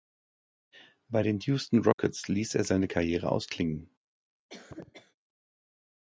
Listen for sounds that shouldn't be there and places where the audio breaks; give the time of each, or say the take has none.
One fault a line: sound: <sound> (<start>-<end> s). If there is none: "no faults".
sound: dropout (1.9-2.0 s)
sound: cough (4.5-5.2 s)